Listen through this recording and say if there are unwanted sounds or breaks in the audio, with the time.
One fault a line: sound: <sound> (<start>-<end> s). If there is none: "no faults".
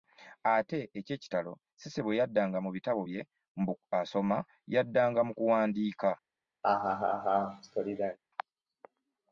sound: laugh (6.6-8.2 s)